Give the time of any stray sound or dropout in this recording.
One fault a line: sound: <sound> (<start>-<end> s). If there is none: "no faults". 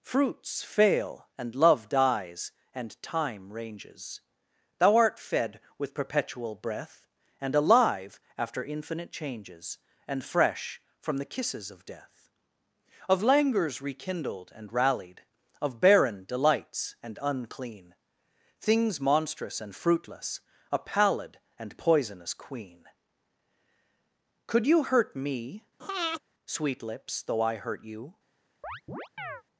sound: breath (25.8-26.2 s)
sound: chirp (28.6-29.4 s)